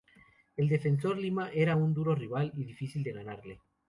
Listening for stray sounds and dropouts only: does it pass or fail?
pass